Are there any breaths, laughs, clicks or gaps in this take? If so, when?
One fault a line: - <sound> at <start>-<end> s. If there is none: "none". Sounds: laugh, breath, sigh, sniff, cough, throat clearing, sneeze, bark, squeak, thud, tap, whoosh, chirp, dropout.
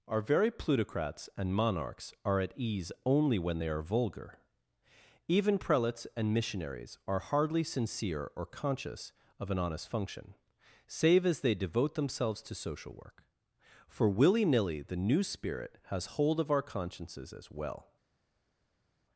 none